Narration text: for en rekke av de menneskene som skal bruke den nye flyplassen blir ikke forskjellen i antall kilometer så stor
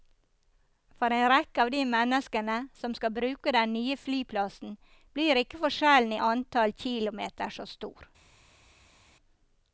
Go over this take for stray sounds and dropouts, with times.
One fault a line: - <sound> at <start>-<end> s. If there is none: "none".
none